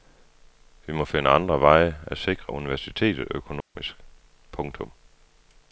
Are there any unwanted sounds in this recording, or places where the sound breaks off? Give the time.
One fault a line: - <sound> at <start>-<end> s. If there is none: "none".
- dropout at 3.6-3.8 s